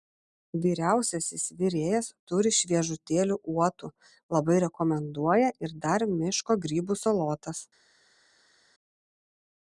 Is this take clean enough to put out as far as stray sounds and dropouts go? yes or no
yes